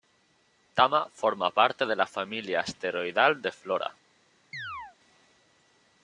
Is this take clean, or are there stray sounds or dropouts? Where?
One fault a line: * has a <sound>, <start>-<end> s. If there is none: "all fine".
* has a chirp, 4.5-5.0 s